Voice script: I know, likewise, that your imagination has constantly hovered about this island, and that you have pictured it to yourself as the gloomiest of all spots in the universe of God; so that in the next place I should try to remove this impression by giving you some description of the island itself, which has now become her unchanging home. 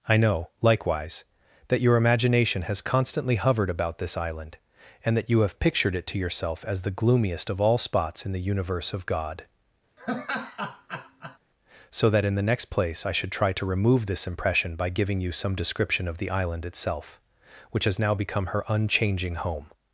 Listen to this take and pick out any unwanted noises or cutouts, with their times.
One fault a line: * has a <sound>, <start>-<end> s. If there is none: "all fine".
* has a laugh, 10.0-11.4 s